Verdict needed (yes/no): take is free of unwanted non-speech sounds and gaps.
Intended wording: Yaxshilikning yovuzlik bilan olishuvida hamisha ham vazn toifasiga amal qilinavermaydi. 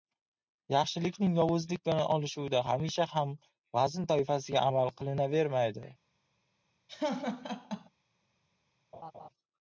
no